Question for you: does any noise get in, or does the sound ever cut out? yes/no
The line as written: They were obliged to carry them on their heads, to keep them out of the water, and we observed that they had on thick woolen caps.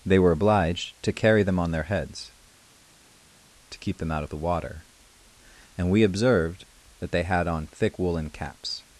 no